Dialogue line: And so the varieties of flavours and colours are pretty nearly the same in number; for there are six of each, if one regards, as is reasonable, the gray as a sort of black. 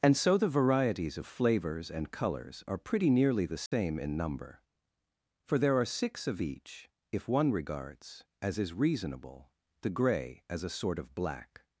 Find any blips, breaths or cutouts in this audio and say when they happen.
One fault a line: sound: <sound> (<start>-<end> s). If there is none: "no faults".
sound: dropout (3.7-3.7 s)